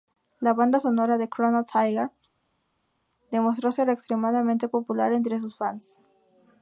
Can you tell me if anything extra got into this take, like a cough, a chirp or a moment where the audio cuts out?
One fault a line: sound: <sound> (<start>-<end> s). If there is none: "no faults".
no faults